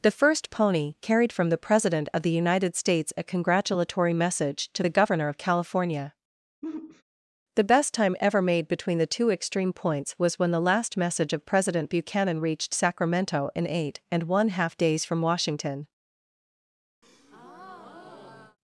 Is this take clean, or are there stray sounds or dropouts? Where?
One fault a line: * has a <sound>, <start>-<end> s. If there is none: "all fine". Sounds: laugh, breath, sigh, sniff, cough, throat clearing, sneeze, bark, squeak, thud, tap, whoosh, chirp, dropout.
* has a sigh, 6.6-7.0 s
* has a breath, 17.0-18.6 s